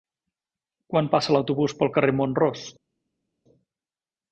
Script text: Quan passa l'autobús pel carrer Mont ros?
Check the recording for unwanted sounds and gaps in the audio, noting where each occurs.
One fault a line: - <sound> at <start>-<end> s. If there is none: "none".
none